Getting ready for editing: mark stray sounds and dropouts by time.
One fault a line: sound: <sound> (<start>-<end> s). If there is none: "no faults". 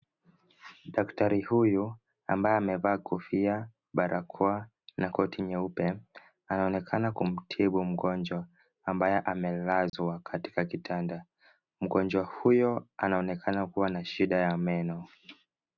sound: dropout (9.9-9.9 s)